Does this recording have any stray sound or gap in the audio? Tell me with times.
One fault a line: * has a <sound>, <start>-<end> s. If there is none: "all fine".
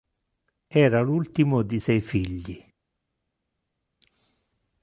all fine